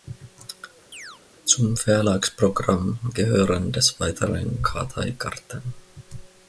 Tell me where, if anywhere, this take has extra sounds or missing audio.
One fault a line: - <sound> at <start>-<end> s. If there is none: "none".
- chirp at 0.9-1.2 s